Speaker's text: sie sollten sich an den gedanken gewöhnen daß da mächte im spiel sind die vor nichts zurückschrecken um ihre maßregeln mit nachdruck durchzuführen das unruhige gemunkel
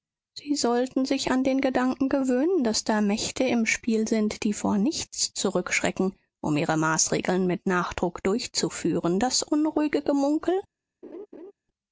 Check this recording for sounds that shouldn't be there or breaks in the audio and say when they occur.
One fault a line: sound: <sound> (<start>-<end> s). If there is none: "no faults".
sound: laugh (11.0-11.5 s)